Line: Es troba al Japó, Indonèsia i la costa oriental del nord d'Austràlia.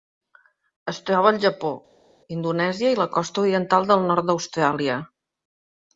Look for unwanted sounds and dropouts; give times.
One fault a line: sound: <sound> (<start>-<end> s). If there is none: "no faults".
no faults